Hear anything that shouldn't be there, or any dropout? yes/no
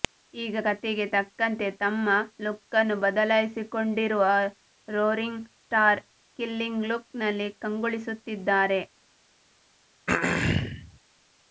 yes